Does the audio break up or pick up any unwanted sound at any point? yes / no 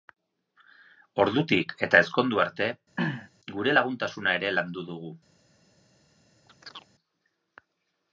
yes